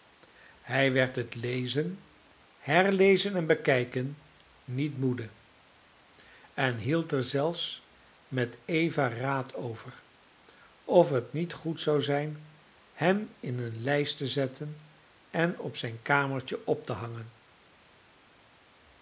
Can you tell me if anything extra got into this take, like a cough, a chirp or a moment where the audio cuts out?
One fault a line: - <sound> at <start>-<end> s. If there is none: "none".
none